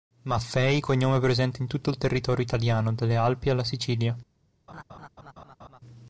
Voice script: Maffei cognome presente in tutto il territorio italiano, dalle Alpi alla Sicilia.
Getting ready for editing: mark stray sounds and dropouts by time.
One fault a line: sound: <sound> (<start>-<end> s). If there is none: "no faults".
sound: laugh (4.7-5.8 s)